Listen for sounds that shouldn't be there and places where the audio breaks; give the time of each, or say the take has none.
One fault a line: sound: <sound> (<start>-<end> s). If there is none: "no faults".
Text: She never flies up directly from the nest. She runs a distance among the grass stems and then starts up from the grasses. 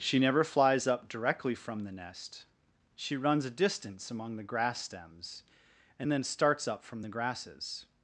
no faults